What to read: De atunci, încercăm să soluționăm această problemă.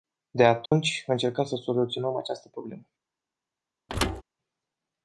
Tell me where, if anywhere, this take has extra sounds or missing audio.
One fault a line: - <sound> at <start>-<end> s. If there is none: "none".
- dropout at 0.7-0.7 s
- thud at 3.9-4.2 s